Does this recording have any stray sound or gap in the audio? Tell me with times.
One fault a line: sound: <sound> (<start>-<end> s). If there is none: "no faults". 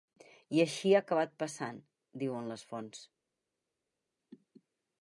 no faults